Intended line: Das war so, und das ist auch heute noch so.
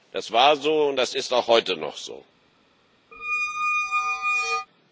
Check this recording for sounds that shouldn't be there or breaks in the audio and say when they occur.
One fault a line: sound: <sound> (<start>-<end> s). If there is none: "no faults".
sound: squeak (3.1-4.7 s)